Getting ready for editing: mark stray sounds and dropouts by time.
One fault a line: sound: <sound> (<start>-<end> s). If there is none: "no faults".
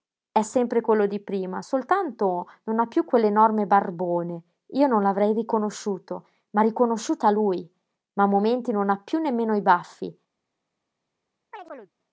sound: chirp (11.5-11.9 s)